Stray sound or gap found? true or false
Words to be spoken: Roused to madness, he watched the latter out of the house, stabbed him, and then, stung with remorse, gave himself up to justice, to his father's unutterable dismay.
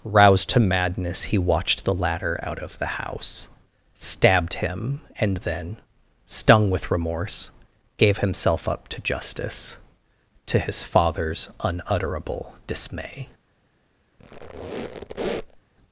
true